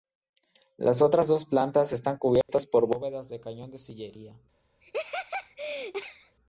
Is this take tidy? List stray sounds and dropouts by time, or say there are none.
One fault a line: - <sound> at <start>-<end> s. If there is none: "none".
- dropout at 2.4-2.5 s
- laugh at 4.8-6.4 s